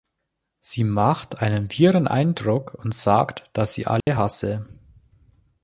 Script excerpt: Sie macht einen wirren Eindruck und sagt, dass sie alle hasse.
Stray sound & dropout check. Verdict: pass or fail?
fail